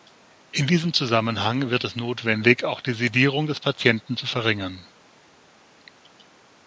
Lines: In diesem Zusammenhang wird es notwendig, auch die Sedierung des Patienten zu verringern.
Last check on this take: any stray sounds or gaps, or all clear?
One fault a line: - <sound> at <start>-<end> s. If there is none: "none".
none